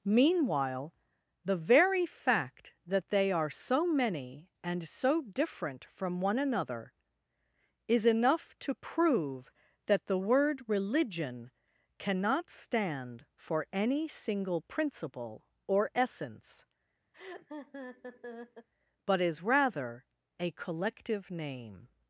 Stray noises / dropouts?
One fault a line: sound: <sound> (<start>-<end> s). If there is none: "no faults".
sound: laugh (17.1-18.7 s)